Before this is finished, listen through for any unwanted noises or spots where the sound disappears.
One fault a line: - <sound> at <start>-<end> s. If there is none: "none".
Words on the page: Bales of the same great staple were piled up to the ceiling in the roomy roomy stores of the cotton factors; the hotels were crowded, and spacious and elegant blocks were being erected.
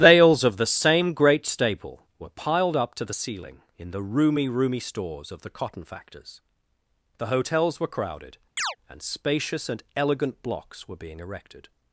- chirp at 8.6-8.8 s